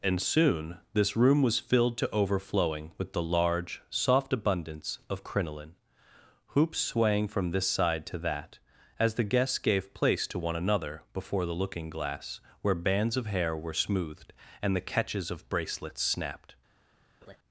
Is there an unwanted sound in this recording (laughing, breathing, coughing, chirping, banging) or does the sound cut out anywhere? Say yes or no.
yes